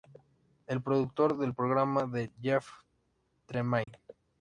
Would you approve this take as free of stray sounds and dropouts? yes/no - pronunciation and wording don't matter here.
no